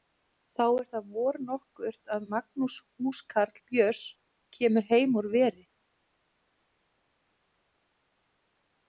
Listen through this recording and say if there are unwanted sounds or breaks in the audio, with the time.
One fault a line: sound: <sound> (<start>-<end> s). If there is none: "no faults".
no faults